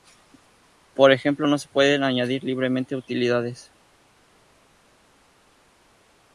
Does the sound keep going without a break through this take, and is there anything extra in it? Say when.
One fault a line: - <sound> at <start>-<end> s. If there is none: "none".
none